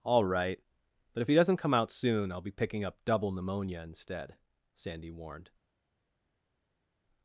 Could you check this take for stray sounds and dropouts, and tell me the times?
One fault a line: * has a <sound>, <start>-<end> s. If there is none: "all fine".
all fine